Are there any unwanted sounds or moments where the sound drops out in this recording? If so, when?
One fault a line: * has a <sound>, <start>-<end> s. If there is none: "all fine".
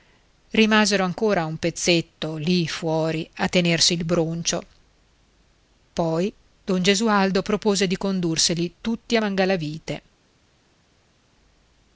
all fine